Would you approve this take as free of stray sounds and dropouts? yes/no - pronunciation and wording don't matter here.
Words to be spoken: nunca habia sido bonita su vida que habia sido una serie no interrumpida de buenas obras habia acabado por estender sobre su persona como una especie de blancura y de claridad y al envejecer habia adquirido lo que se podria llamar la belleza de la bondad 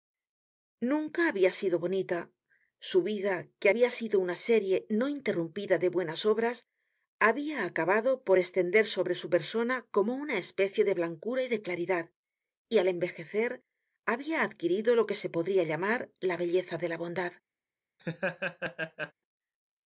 no